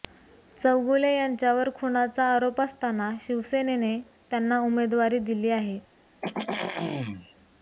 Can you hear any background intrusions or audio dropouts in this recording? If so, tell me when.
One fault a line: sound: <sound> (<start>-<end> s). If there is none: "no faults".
sound: throat clearing (6.2-7.3 s)